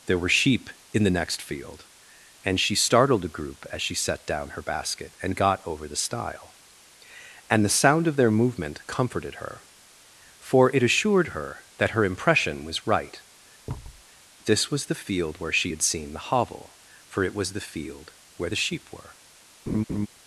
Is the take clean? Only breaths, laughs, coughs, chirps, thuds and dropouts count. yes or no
no